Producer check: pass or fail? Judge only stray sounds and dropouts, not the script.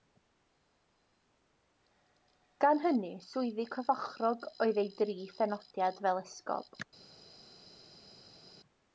pass